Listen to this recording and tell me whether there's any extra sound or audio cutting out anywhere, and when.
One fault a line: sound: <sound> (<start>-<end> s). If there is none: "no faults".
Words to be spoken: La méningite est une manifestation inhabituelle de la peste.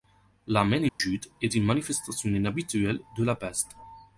sound: dropout (0.9-1.0 s)